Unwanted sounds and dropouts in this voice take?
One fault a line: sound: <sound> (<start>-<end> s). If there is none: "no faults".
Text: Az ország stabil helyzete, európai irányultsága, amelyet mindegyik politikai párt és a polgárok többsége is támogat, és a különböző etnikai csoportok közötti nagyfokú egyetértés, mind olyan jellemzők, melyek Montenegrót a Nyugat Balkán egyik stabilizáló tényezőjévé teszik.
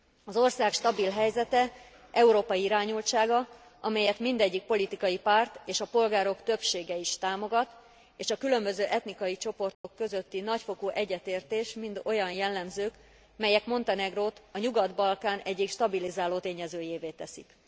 sound: dropout (9.7-9.8 s)